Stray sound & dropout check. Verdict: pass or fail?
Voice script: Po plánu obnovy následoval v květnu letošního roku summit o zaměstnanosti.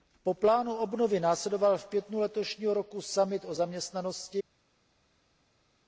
pass